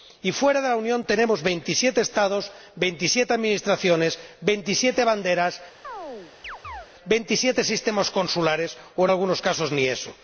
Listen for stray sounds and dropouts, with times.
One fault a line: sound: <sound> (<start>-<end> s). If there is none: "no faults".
sound: chirp (5.8-6.9 s)